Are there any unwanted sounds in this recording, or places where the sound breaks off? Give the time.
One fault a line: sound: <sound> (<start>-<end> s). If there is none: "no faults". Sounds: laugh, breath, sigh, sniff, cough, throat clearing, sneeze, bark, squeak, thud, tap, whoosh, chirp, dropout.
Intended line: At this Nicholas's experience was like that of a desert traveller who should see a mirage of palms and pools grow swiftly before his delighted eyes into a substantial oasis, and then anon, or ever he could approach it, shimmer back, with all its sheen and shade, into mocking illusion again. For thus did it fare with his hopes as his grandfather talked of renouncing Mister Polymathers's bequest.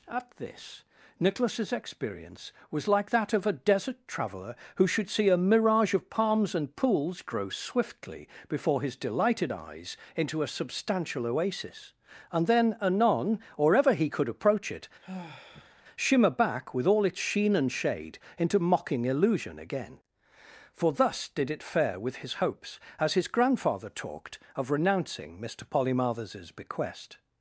sound: sigh (15.0-15.8 s)